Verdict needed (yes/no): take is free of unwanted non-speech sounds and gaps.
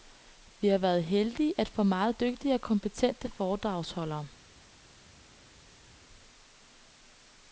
yes